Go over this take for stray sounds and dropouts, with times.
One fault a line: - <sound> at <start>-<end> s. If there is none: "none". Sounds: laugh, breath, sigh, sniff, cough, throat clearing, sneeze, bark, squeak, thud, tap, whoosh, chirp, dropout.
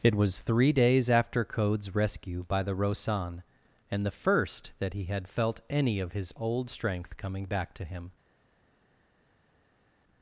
none